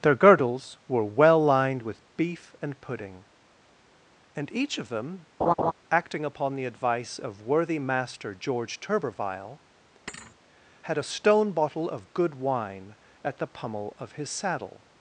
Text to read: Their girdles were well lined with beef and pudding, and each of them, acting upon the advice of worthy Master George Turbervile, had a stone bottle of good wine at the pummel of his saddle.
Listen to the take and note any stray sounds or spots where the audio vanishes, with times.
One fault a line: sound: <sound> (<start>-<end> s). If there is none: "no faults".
sound: laugh (5.4-5.7 s)
sound: thud (10.1-10.4 s)